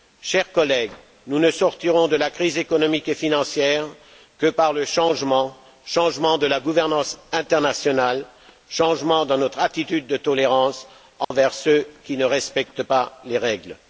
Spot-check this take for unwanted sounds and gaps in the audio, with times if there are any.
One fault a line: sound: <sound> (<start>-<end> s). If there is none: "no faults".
sound: dropout (11.2-11.3 s)